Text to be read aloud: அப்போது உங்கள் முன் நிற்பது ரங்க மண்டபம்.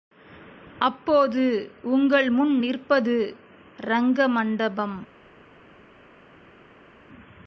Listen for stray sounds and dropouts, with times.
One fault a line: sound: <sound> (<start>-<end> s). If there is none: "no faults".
no faults